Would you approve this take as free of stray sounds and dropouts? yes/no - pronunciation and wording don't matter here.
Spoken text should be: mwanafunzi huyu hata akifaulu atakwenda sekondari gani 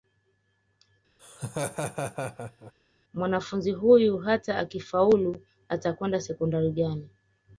no